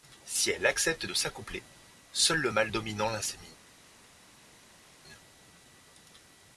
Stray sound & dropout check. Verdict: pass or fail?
pass